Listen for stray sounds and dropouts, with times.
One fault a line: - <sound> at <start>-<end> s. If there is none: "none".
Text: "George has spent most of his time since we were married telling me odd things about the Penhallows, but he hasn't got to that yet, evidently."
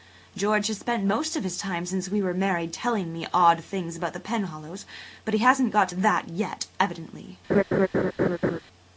- laugh at 7.5-8.6 s